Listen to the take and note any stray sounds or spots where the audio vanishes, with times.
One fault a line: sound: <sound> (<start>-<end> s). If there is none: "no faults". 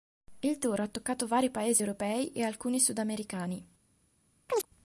sound: chirp (4.5-4.7 s)